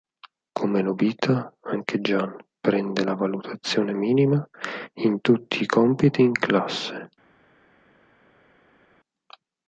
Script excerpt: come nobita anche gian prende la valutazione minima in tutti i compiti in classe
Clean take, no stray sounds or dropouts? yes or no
yes